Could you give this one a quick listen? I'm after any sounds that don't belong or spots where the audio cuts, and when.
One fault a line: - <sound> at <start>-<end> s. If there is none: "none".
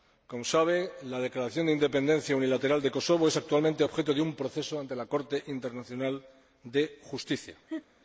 - laugh at 7.7-7.9 s